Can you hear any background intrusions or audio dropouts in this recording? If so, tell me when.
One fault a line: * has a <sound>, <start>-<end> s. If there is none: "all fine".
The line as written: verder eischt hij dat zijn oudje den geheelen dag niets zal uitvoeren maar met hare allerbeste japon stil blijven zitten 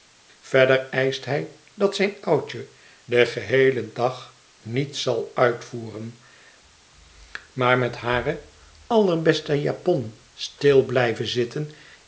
all fine